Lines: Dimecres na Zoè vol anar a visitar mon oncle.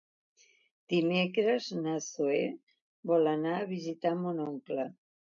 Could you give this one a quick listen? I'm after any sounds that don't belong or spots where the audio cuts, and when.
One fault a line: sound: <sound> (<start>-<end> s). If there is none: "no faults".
no faults